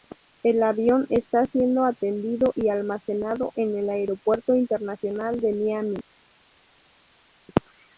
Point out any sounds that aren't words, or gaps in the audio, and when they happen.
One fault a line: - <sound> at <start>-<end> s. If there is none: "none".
none